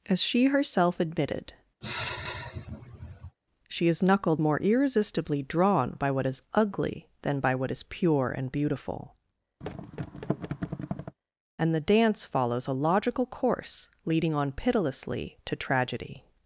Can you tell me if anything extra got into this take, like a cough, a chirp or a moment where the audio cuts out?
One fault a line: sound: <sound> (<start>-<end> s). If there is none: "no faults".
sound: sigh (1.8-3.4 s)
sound: thud (9.6-11.2 s)